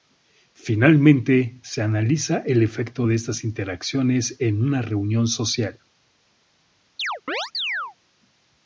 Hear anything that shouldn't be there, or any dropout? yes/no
yes